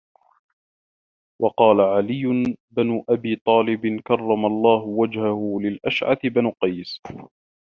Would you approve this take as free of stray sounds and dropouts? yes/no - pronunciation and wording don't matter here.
yes